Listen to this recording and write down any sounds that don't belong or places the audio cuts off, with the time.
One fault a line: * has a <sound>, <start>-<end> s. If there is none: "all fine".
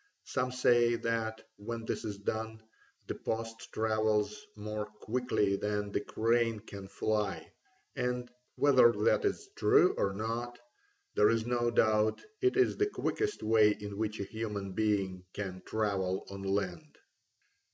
all fine